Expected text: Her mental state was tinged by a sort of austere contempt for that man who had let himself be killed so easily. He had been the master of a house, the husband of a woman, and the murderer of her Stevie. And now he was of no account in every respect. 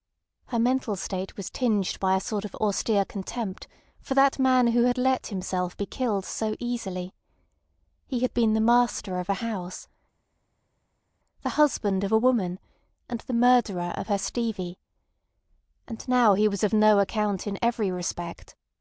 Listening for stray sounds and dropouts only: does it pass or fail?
pass